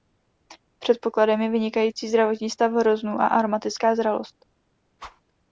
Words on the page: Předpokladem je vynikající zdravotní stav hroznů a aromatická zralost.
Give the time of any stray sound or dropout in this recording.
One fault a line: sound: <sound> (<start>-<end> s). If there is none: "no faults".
sound: whoosh (5.0-5.2 s)